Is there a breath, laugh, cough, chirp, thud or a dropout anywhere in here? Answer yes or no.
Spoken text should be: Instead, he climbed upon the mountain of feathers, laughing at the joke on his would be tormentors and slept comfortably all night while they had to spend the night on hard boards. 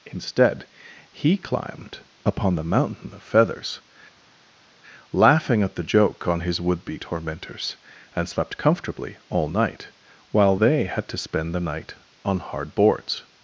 no